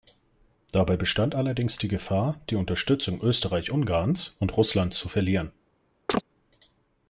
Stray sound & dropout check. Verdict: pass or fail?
fail